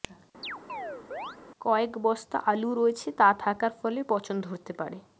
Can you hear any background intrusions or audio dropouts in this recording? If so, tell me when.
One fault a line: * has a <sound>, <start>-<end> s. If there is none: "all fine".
* has a chirp, 0.4-1.4 s